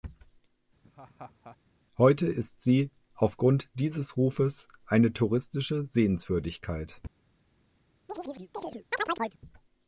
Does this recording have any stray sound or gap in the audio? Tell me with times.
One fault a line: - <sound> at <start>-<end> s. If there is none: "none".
- laugh at 0.8-1.6 s
- chirp at 8.1-9.4 s